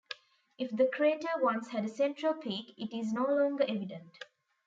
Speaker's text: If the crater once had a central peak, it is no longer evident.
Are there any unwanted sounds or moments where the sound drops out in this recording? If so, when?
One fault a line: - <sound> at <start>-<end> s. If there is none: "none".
none